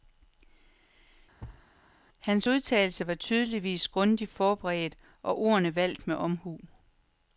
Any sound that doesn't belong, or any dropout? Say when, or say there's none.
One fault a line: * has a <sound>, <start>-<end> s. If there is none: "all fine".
* has a thud, 1.4-1.7 s